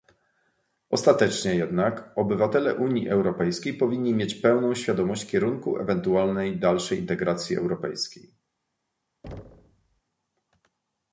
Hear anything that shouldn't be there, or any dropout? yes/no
yes